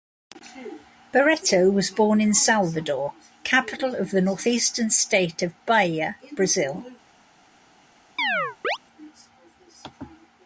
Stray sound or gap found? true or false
true